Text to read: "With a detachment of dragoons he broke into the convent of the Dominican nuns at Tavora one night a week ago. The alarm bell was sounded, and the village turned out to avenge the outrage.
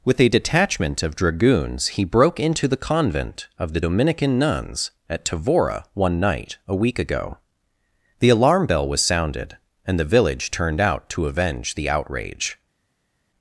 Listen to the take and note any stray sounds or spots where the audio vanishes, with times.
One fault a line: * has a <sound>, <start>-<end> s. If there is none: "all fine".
all fine